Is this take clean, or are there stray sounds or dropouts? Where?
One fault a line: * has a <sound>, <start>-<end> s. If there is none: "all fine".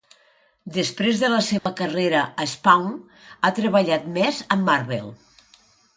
* has a dropout, 1.6-1.7 s